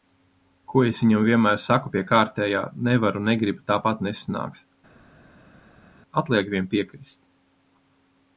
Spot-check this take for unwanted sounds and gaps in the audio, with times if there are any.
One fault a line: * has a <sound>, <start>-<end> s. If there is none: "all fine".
all fine